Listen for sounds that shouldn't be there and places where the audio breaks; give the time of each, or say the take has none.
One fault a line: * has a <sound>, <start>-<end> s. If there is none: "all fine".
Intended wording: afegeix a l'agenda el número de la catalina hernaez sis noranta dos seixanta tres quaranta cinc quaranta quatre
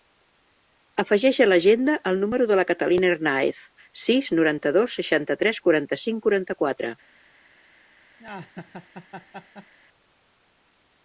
* has a laugh, 8.2-9.7 s